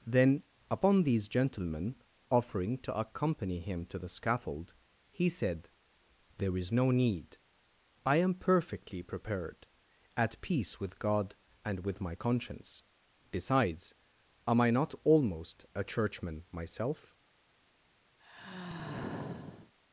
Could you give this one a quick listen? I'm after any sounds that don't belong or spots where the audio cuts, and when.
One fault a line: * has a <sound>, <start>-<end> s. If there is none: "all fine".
* has a sigh, 18.2-19.7 s